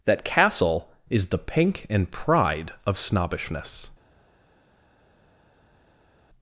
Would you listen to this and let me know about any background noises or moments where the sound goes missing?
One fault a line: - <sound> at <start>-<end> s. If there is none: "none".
none